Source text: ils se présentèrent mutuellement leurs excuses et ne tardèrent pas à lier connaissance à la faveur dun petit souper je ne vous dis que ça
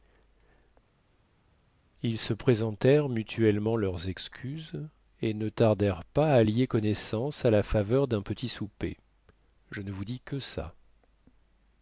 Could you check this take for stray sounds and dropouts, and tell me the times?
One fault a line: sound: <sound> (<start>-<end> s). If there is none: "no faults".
no faults